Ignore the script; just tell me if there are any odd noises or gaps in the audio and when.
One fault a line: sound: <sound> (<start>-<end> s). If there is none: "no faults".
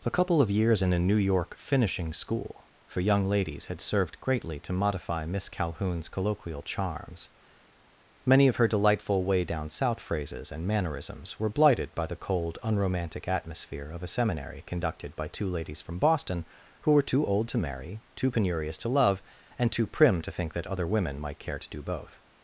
no faults